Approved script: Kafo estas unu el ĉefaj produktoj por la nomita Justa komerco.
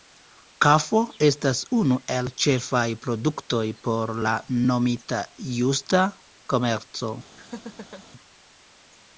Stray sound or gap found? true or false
true